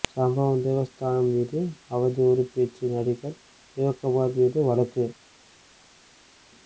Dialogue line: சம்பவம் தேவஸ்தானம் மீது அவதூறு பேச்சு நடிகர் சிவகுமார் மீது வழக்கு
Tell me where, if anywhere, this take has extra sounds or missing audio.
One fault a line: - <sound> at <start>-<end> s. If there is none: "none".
none